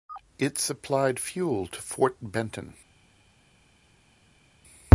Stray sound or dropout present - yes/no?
no